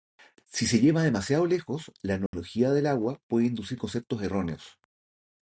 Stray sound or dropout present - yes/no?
yes